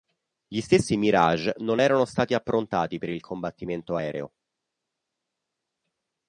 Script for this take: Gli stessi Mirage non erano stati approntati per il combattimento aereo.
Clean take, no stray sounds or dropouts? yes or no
yes